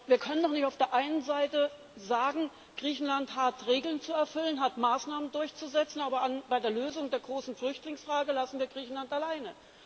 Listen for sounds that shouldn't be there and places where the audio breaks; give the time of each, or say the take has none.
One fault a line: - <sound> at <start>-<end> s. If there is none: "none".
none